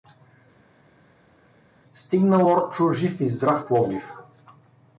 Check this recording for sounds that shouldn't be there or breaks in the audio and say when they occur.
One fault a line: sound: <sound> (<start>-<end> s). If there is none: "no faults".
no faults